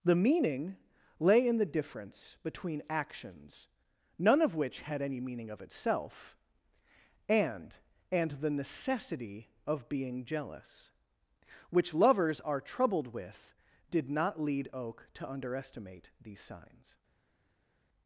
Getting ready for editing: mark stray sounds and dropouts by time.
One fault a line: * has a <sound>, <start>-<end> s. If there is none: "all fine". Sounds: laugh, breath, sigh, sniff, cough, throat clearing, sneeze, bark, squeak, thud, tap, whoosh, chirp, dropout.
all fine